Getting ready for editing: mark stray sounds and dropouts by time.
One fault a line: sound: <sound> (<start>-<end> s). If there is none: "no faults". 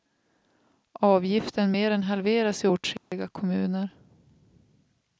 sound: dropout (3.0-3.1 s)